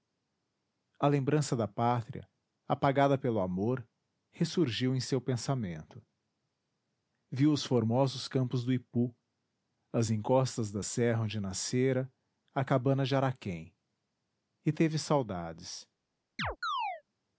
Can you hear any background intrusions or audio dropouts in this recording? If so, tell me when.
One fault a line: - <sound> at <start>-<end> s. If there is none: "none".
- chirp at 16.4-17.0 s